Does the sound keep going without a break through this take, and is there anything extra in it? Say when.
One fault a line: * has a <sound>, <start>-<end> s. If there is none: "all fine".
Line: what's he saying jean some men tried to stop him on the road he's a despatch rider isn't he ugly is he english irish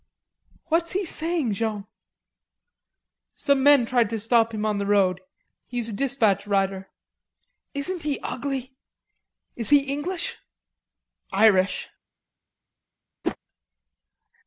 * has a whoosh, 13.2-13.4 s